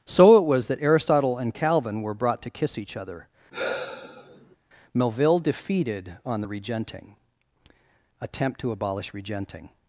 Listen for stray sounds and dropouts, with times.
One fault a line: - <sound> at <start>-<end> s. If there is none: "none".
- sigh at 3.5-4.6 s